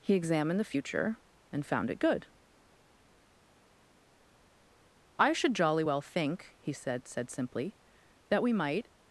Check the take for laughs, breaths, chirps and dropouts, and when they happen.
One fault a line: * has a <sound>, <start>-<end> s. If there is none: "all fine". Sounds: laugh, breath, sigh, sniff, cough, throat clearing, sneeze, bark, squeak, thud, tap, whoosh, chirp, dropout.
all fine